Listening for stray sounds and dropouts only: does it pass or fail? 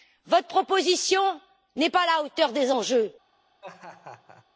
fail